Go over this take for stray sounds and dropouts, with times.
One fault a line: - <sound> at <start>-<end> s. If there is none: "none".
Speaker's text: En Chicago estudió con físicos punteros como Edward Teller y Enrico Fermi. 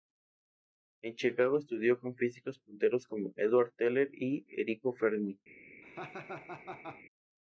- laugh at 5.8-7.0 s